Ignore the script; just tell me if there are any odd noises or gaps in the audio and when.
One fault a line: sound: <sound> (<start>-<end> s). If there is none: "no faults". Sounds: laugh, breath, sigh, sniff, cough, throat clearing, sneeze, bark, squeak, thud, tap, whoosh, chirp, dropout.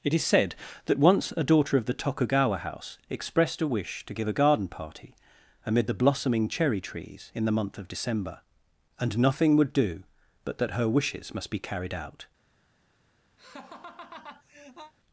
sound: laugh (13.4-14.9 s)